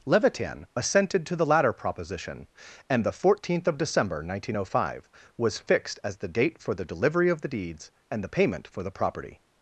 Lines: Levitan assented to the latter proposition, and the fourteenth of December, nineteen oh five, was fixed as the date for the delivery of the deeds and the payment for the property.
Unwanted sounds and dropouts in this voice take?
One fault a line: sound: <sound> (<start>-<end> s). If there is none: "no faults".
no faults